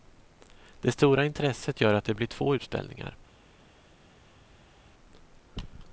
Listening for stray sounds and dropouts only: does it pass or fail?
pass